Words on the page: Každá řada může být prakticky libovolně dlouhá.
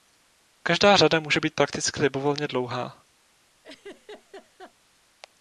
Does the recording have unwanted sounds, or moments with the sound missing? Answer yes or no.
yes